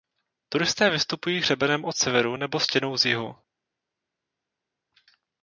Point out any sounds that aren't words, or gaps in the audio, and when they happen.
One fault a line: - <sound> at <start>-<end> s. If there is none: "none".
none